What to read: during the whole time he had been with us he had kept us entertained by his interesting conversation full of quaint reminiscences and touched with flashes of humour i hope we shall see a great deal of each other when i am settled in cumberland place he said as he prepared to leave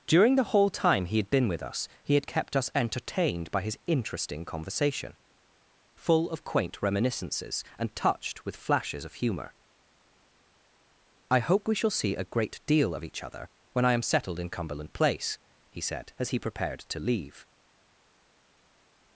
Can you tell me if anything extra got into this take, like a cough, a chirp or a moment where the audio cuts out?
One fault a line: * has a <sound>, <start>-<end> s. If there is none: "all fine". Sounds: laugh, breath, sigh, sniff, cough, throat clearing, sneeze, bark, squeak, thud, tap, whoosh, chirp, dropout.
all fine